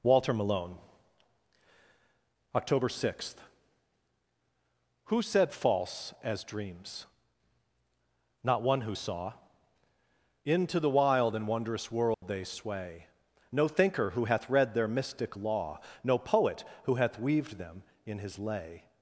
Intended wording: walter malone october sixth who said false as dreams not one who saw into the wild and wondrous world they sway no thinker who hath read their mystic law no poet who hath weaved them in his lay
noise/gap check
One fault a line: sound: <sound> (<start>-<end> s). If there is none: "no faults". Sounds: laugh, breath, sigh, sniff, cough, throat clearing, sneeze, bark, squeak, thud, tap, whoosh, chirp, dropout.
sound: dropout (12.1-12.2 s)